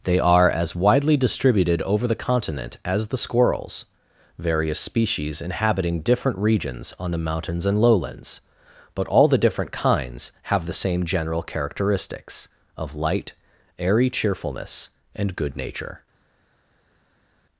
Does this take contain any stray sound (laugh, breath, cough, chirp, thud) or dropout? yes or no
no